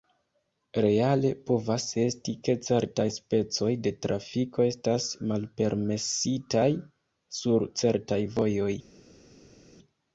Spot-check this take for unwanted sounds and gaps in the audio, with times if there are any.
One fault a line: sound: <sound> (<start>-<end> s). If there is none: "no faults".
no faults